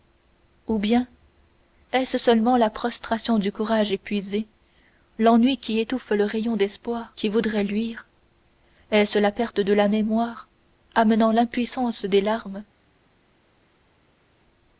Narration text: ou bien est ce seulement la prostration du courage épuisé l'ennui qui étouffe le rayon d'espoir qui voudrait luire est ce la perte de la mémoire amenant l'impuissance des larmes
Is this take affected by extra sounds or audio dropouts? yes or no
no